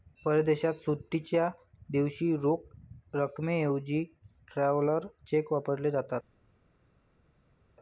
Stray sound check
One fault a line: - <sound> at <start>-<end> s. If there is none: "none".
none